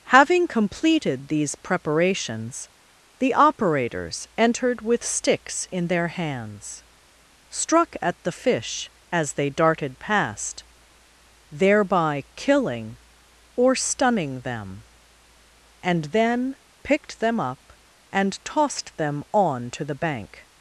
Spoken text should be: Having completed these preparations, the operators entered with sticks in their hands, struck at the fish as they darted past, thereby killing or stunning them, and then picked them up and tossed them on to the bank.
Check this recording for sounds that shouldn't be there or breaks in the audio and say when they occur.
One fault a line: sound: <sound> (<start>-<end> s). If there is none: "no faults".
no faults